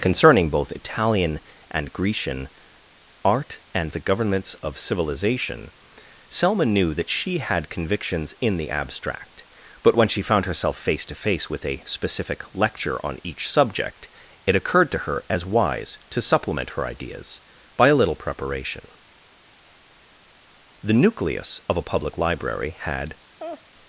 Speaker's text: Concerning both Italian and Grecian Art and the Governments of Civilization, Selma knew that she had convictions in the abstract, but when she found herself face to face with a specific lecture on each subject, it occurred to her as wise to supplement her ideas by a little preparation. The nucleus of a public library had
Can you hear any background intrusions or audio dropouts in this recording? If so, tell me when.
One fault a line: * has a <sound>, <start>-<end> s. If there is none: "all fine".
* has a laugh, 23.4-23.7 s